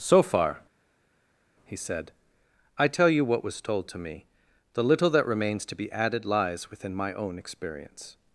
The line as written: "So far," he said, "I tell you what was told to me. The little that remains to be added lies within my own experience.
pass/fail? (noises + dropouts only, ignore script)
pass